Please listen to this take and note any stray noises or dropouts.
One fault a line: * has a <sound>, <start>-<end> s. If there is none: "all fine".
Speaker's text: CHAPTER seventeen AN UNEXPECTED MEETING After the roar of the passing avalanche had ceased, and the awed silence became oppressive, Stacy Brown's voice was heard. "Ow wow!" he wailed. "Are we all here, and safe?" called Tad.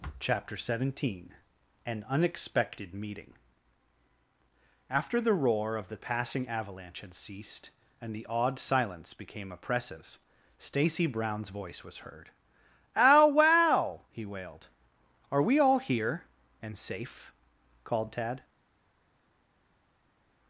all fine